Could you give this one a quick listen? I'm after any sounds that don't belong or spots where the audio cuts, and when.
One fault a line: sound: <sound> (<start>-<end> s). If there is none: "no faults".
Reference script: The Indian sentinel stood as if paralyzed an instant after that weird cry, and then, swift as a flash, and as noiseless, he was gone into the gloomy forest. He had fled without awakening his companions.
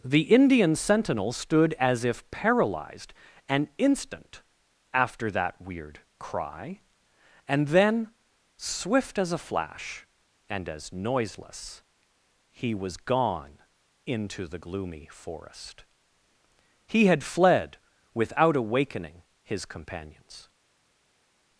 no faults